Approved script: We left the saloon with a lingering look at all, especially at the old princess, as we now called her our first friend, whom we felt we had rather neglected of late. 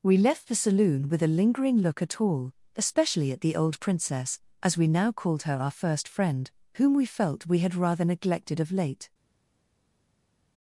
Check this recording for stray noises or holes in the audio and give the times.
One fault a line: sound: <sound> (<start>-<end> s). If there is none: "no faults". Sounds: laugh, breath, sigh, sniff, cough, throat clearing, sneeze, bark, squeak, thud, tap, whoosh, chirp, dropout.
no faults